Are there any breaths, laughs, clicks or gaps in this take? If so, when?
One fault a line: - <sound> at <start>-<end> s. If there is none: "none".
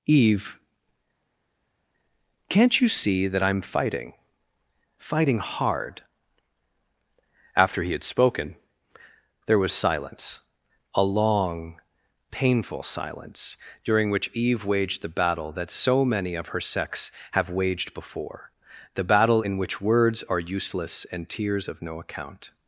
none